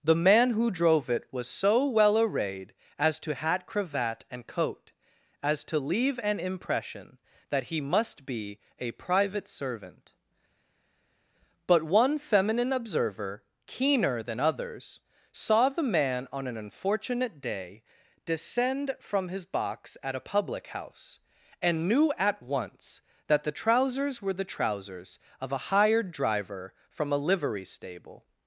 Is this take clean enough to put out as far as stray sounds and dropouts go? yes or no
yes